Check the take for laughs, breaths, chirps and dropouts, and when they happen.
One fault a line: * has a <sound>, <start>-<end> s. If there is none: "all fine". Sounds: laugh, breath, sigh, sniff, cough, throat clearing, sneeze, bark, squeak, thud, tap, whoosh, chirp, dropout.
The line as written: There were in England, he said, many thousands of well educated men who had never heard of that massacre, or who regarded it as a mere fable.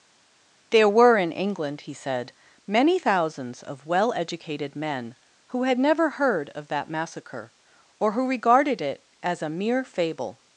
all fine